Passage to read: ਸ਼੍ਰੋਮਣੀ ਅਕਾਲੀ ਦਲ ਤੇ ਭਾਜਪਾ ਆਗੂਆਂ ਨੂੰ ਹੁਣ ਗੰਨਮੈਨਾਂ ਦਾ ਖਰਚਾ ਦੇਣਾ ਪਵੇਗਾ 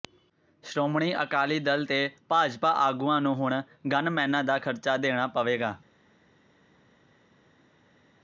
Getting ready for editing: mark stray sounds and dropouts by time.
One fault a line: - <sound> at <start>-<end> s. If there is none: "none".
none